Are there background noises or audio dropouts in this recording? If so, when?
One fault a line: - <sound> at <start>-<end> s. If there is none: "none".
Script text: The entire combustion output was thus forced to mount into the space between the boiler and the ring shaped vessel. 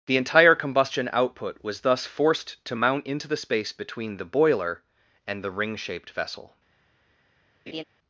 - laugh at 7.7-7.8 s